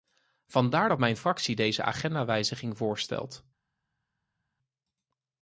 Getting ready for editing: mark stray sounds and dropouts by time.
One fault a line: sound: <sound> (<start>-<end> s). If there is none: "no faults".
no faults